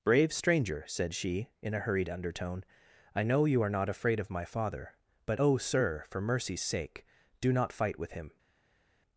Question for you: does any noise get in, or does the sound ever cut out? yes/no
no